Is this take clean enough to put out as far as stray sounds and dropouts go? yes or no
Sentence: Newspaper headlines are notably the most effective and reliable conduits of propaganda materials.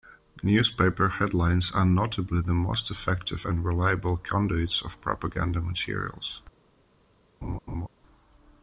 no